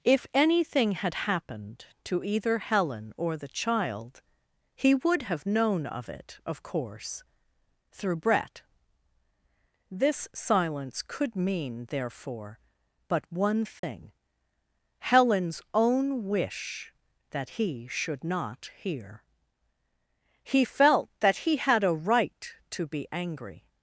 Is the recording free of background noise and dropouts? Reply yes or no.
no